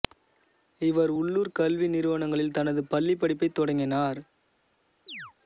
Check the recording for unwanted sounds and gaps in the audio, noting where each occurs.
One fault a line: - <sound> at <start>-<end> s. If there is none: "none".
- chirp at 5.1-5.3 s